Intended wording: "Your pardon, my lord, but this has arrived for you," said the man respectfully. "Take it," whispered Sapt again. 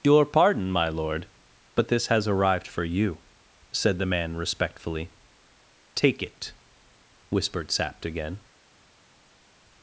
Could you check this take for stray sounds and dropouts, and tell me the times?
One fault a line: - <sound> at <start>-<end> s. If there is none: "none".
none